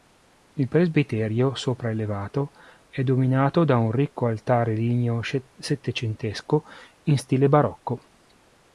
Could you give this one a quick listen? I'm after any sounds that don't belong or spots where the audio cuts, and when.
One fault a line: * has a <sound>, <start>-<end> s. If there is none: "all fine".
all fine